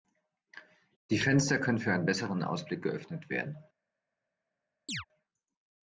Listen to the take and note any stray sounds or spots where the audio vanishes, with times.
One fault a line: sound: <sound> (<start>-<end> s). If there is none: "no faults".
sound: chirp (4.9-5.1 s)